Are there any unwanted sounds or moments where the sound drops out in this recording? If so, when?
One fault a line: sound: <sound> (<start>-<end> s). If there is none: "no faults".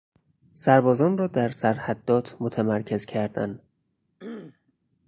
sound: throat clearing (4.2-4.7 s)